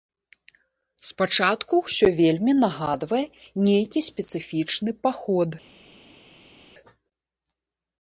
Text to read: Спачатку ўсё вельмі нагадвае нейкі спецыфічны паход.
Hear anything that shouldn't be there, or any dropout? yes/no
no